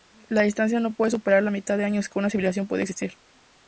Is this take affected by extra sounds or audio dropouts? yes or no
no